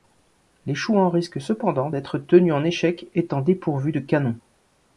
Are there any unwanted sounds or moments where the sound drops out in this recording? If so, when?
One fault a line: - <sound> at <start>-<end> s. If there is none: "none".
none